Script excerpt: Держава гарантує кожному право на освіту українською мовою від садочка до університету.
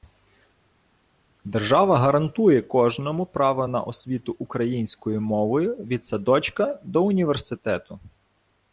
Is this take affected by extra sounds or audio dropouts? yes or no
no